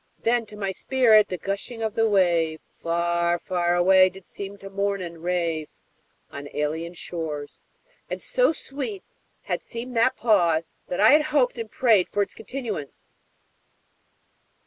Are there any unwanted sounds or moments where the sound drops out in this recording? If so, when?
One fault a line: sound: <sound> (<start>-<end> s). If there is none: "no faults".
no faults